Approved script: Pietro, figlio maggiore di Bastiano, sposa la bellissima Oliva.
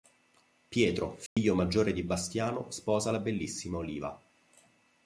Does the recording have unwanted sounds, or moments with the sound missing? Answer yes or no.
yes